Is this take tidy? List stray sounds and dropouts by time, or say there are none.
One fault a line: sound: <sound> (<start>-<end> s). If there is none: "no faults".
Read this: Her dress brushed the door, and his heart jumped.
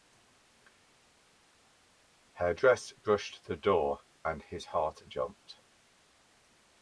no faults